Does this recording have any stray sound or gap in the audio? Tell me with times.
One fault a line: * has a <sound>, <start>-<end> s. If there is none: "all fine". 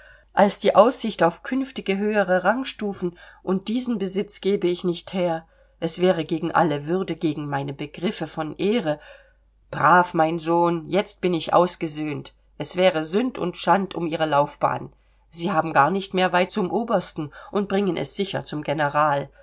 all fine